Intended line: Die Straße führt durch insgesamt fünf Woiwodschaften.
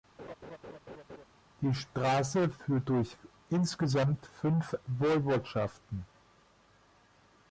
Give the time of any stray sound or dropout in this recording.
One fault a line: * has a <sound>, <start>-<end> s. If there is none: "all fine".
* has a laugh, 0.2-1.2 s